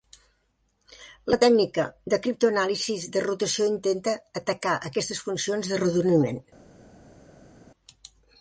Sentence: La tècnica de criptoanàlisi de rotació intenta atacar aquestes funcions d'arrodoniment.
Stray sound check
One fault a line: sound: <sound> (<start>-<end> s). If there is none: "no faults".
no faults